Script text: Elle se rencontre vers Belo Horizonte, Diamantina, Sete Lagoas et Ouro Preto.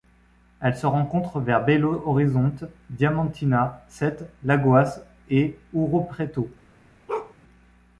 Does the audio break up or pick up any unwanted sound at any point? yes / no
yes